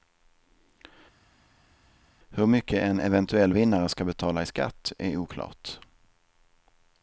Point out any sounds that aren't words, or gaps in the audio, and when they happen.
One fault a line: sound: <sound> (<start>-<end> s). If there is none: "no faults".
no faults